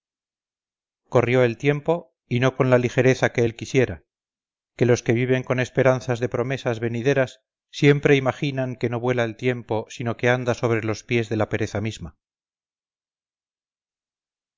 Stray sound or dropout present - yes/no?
no